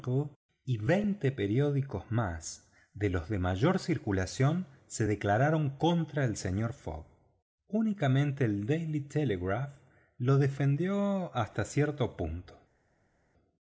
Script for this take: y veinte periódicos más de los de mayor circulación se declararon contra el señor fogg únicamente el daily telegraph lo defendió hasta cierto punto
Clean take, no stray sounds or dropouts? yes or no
yes